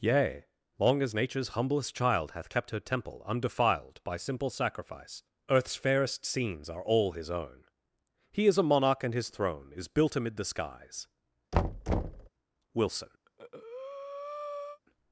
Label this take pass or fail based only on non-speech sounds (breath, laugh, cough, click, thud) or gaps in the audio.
fail